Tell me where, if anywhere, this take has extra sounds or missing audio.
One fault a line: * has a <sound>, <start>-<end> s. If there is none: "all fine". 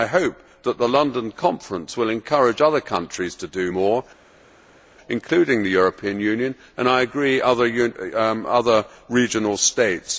all fine